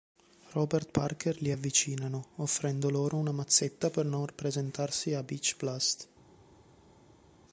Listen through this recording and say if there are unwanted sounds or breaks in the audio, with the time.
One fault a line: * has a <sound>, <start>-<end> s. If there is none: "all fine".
all fine